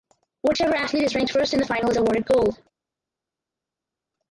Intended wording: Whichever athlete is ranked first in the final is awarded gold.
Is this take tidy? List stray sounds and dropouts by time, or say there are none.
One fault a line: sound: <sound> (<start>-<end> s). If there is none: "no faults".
no faults